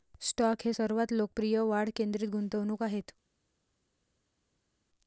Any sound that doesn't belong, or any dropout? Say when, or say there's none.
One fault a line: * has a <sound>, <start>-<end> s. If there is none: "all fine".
all fine